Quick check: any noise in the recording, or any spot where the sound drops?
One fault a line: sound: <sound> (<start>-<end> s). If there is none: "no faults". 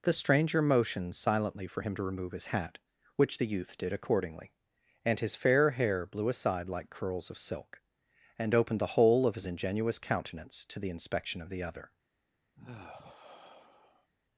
sound: sigh (12.6-14.1 s)